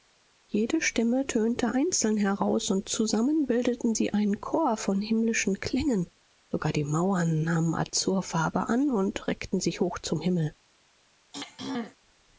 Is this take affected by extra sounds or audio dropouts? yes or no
yes